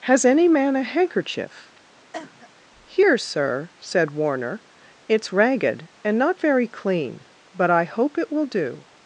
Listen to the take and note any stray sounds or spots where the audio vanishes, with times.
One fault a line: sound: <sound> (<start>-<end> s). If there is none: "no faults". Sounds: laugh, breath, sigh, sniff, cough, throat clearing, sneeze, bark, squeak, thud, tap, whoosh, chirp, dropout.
sound: cough (2.1-2.5 s)